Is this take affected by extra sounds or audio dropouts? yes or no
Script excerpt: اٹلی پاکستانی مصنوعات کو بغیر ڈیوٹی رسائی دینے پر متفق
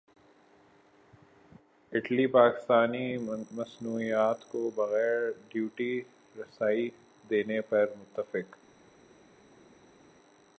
no